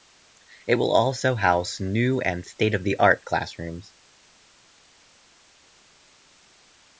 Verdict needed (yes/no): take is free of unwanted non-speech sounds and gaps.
yes